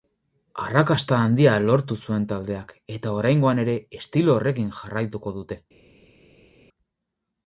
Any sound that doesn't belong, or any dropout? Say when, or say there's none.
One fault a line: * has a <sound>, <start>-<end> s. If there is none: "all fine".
all fine